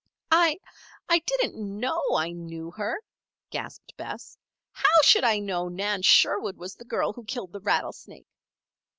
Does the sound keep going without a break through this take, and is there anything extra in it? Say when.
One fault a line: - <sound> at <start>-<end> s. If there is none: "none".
none